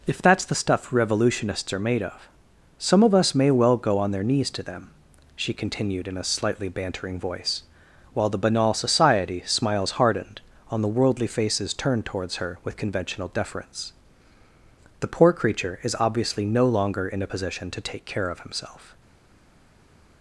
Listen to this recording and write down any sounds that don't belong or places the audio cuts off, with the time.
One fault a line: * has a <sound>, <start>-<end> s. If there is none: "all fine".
all fine